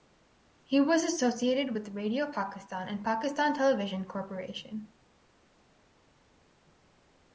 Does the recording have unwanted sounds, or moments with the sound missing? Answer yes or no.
no